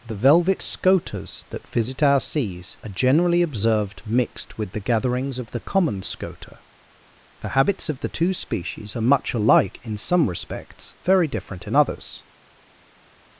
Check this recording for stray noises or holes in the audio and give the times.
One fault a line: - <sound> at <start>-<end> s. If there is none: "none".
none